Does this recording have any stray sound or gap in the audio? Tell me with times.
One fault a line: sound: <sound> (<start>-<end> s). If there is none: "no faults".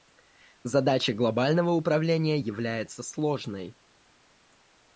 no faults